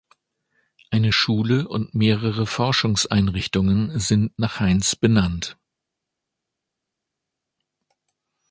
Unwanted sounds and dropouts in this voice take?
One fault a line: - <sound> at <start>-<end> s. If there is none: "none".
none